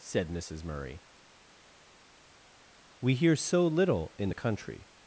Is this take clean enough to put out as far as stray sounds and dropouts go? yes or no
yes